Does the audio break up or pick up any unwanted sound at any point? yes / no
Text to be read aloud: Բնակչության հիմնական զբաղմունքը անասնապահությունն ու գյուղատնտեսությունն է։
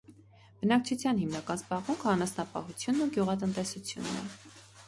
no